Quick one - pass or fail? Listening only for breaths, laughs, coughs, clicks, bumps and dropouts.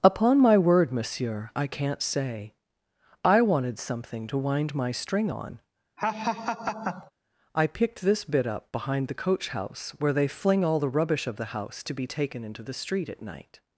fail